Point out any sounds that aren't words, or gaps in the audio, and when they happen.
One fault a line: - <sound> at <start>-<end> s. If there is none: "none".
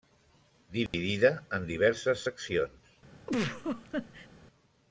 - dropout at 0.9-0.9 s
- laugh at 3.3-4.3 s